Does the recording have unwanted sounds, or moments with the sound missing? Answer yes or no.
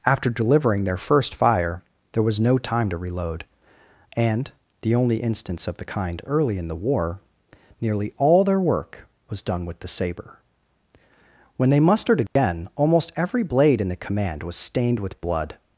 yes